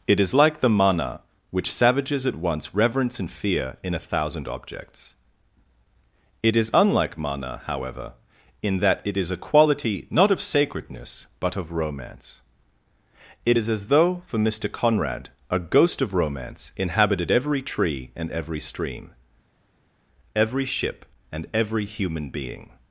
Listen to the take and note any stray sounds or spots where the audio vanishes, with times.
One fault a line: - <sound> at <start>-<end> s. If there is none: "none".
none